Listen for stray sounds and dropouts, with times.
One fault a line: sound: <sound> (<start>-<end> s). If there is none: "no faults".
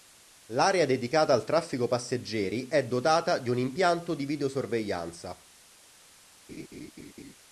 sound: laugh (6.5-7.3 s)